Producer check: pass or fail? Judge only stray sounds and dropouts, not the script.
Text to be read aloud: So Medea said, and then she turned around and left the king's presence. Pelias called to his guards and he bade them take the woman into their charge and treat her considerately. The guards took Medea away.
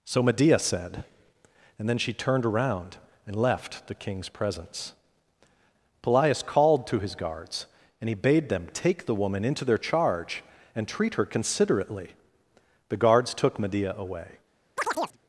fail